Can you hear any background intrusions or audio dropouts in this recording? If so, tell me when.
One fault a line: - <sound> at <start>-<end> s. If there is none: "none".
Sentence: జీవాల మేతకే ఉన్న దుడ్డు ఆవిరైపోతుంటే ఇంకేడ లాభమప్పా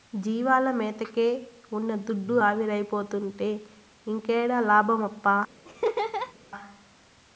- laugh at 5.6-6.3 s